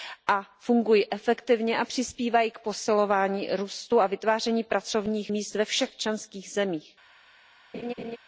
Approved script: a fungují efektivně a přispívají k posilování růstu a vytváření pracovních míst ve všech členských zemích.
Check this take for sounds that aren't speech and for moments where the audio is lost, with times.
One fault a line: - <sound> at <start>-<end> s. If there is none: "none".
- laugh at 7.7-8.2 s